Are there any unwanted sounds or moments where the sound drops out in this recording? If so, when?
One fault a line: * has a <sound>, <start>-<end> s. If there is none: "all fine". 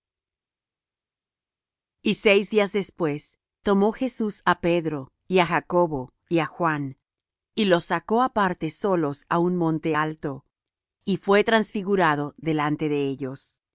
all fine